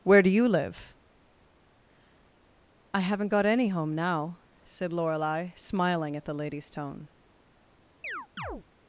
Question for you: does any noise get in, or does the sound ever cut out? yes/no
yes